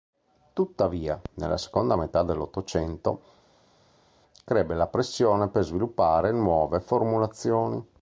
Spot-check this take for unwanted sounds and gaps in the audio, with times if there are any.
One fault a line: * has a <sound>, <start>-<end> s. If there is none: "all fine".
all fine